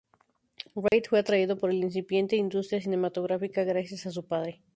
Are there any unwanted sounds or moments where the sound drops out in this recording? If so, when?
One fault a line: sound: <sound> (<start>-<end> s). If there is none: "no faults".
sound: dropout (0.9-0.9 s)